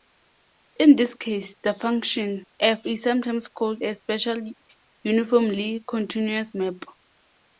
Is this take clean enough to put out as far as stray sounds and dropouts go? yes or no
yes